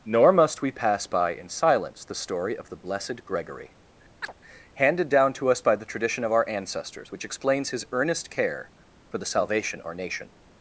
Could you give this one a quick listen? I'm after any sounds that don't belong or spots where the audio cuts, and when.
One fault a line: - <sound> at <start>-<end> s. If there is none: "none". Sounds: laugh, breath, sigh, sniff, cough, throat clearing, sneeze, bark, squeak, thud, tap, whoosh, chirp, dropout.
- chirp at 4.2-4.3 s